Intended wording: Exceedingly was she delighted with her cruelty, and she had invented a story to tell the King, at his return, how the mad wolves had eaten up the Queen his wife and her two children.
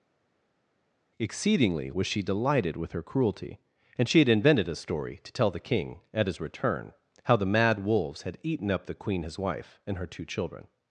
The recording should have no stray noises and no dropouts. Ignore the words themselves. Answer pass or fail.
pass